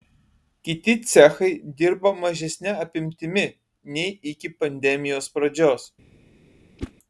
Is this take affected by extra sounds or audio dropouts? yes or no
yes